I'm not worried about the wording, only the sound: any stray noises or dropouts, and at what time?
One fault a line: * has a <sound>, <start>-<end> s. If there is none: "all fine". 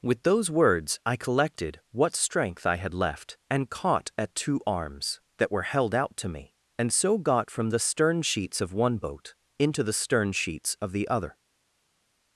all fine